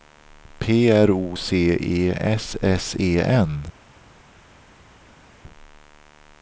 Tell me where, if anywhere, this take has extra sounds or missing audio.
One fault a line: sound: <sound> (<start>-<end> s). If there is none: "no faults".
no faults